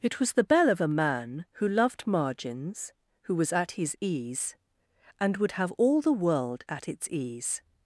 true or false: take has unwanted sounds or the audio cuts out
false